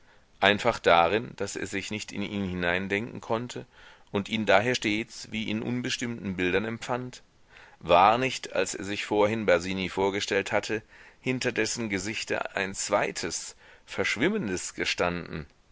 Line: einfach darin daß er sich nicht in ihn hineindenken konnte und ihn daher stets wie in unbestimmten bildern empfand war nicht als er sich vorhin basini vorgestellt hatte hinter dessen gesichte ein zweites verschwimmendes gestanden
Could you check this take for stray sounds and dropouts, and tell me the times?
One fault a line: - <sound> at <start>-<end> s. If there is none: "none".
none